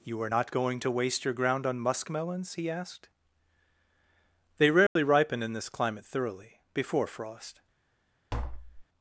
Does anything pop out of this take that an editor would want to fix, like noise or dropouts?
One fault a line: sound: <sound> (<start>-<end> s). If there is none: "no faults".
sound: dropout (4.9-5.0 s)
sound: tap (8.3-8.9 s)